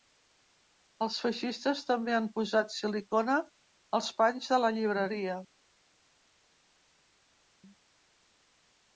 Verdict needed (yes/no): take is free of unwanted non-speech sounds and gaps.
yes